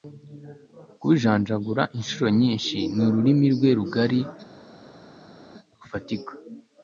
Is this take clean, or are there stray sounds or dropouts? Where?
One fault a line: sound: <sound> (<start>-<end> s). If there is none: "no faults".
no faults